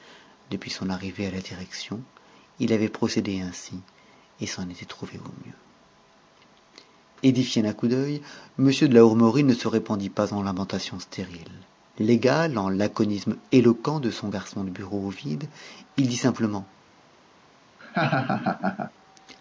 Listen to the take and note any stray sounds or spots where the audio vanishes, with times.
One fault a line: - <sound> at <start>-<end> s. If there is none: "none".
- laugh at 17.8-18.9 s